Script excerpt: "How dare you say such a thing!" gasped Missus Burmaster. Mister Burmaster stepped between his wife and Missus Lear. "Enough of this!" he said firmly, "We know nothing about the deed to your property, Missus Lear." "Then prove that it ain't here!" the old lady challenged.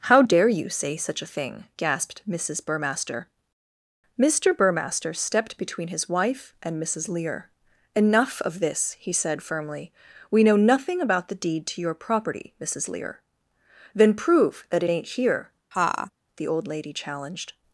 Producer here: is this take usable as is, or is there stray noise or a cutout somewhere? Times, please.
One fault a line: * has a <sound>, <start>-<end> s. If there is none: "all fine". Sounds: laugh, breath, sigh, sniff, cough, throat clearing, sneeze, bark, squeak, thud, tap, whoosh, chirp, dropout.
* has a laugh, 15.7-16.1 s